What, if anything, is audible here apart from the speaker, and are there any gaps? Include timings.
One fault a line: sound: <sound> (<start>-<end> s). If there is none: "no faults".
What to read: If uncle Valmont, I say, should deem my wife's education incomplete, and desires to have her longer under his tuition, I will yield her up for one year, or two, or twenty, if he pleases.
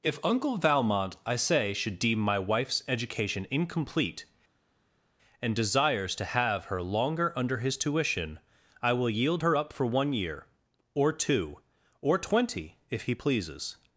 no faults